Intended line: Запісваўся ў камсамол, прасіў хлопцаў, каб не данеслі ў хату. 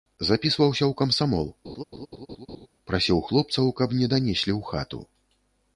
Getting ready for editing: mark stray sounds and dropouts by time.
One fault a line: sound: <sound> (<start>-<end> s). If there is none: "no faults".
sound: laugh (1.6-2.7 s)